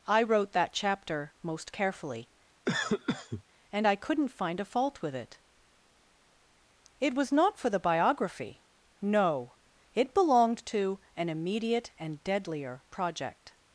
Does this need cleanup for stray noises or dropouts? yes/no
yes